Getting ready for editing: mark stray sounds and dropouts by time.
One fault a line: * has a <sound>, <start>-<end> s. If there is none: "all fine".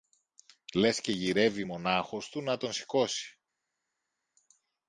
all fine